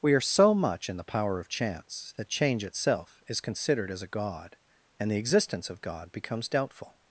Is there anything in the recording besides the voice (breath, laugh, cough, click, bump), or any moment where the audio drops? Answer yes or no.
no